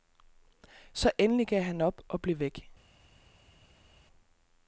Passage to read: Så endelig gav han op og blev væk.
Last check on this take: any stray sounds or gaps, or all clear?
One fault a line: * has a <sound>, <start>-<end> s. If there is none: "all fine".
all fine